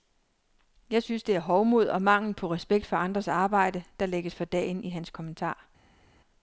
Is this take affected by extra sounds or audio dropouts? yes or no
no